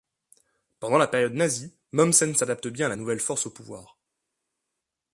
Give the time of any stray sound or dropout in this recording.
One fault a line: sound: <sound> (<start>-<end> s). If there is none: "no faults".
no faults